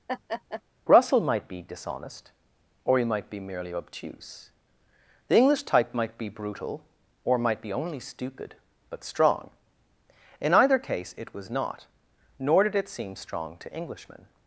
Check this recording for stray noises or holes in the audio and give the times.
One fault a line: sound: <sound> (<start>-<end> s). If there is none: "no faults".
sound: laugh (0.1-0.6 s)